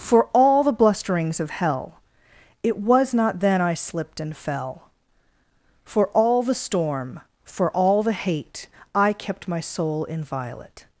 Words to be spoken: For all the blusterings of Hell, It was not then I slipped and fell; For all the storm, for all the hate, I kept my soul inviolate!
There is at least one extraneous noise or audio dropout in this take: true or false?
false